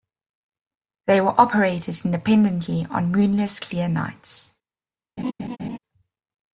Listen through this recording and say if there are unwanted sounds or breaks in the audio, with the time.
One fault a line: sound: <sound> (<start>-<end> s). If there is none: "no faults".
sound: laugh (5.2-5.8 s)